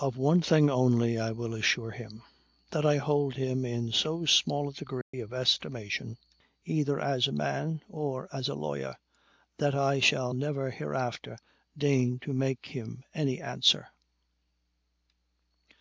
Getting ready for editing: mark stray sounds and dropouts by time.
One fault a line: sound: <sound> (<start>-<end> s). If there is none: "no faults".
sound: dropout (5.0-5.1 s)